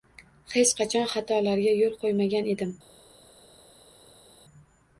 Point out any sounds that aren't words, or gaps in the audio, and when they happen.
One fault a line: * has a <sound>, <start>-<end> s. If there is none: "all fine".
all fine